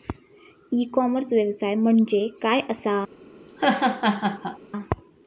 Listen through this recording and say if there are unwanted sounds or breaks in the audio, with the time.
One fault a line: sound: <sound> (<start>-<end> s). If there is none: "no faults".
sound: laugh (3.5-4.6 s)